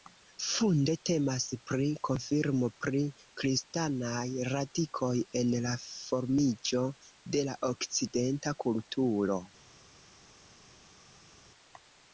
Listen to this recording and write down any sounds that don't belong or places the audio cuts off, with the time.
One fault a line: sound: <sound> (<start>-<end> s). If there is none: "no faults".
no faults